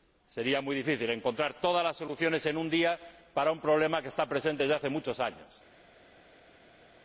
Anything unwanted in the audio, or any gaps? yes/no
no